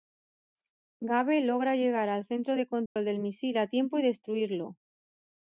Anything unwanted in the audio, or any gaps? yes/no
yes